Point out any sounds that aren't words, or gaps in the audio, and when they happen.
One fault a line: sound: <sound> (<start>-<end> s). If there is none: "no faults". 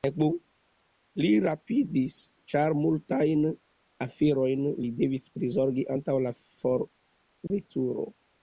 sound: dropout (7.5-7.5 s)